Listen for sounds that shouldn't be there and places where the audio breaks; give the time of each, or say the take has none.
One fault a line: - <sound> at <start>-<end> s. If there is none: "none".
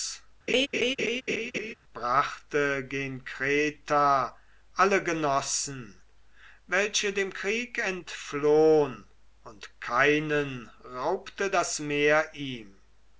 - laugh at 0.5-1.7 s